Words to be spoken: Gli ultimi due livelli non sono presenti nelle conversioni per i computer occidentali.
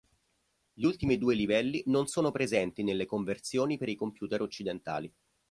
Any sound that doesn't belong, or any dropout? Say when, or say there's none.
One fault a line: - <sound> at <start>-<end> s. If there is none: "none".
none